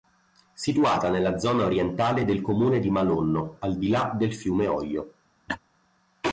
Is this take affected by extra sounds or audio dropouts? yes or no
yes